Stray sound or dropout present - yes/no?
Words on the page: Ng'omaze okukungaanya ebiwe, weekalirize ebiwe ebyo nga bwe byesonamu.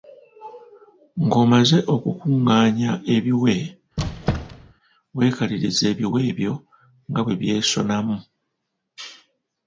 yes